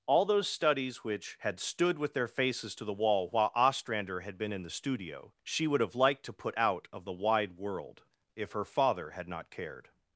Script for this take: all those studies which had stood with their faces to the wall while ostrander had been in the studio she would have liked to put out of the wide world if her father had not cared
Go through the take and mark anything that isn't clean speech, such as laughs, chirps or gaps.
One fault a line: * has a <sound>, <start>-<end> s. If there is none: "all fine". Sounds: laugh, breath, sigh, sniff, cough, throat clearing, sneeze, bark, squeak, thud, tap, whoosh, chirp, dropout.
all fine